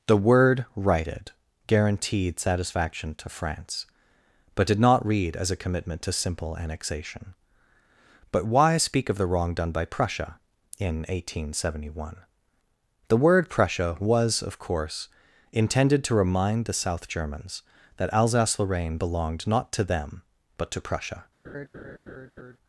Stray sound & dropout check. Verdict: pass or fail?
fail